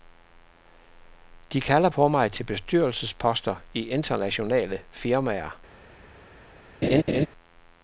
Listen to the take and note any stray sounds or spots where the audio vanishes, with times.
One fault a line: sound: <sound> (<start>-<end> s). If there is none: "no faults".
sound: laugh (6.8-7.3 s)